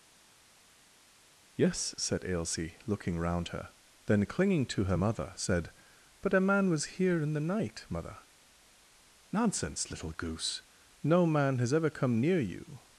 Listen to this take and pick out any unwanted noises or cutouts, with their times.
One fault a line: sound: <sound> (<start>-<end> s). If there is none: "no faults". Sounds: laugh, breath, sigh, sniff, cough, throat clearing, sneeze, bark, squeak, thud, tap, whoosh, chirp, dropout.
no faults